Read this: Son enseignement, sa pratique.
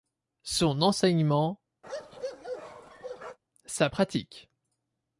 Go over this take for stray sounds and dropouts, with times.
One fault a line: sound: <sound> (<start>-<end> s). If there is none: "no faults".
sound: bark (1.8-3.4 s)